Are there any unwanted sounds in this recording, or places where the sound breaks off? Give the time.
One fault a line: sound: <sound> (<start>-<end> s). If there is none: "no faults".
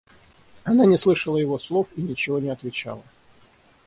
no faults